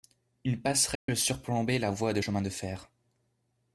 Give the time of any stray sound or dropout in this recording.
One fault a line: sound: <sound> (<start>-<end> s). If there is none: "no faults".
sound: dropout (0.9-1.1 s)